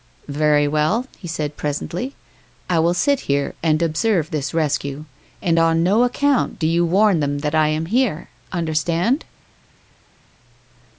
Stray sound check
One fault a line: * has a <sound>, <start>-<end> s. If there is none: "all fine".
all fine